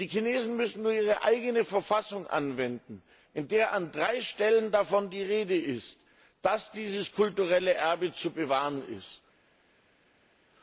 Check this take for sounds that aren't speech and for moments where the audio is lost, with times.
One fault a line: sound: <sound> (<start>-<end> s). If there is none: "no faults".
no faults